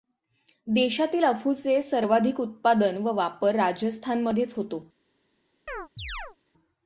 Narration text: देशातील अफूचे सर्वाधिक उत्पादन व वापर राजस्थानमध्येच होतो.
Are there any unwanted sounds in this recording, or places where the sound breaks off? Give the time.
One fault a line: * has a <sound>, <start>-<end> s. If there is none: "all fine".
* has a chirp, 5.7-6.4 s